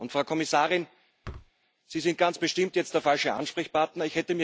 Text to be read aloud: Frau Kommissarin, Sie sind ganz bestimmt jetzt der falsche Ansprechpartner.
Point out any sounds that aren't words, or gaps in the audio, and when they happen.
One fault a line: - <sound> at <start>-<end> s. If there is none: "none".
- thud at 1.2-1.5 s